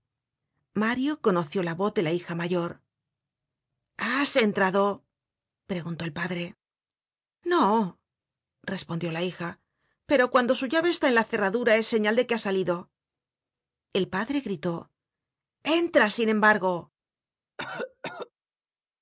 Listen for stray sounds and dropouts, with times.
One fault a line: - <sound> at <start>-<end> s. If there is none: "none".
- cough at 17.6-18.3 s